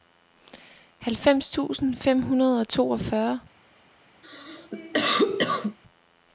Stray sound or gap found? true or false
true